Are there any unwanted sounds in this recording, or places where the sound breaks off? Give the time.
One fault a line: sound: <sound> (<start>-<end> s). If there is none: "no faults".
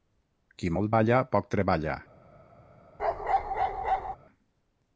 sound: bark (3.0-4.2 s)